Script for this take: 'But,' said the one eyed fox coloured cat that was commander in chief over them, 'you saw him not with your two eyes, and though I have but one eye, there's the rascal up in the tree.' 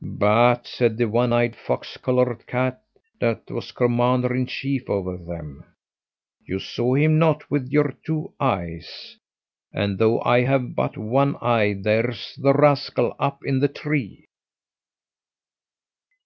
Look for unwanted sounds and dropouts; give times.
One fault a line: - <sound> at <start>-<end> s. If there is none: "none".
none